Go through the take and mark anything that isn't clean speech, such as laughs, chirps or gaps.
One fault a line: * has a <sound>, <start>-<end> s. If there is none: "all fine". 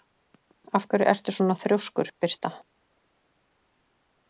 all fine